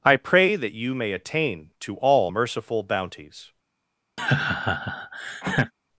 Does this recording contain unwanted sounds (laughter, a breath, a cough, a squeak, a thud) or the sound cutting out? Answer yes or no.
yes